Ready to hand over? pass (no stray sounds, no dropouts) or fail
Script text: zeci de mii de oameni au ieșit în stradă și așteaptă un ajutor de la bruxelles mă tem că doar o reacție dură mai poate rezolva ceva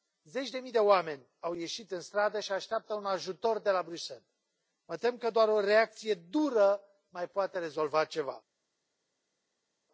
pass